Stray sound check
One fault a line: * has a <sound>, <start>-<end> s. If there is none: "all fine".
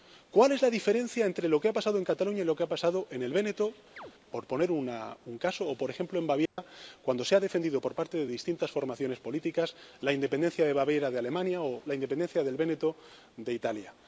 * has a chirp, 4.0-4.1 s
* has a dropout, 6.5-6.6 s